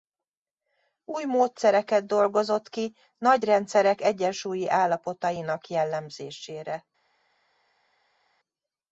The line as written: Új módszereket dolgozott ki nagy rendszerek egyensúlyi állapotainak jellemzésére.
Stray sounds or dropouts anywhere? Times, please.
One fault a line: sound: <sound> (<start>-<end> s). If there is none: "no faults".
no faults